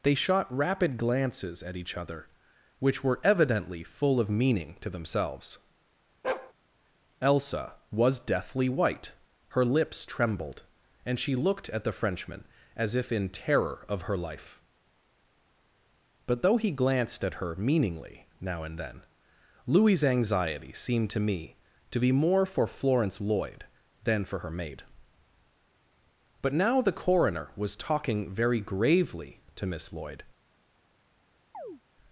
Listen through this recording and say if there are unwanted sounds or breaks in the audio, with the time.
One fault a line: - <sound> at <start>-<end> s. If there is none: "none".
- bark at 6.2-6.5 s
- chirp at 31.5-31.8 s